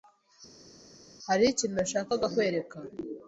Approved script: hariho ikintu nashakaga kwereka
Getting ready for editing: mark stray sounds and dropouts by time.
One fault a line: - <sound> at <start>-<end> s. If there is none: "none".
none